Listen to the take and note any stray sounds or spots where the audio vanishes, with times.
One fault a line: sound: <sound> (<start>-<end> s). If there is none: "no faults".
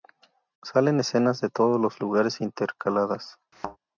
sound: thud (3.5-3.8 s)